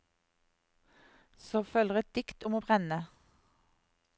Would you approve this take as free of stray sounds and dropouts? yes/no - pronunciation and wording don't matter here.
yes